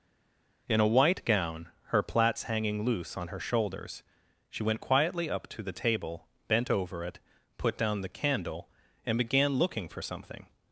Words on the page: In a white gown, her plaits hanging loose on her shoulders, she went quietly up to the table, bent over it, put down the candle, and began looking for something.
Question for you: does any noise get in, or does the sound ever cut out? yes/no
no